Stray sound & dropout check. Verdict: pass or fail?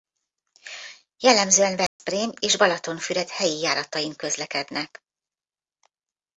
fail